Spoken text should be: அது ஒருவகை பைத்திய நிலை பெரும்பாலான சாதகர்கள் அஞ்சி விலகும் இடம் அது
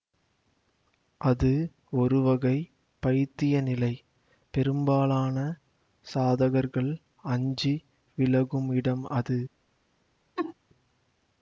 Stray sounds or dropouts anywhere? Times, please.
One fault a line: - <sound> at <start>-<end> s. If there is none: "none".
- laugh at 10.4-10.5 s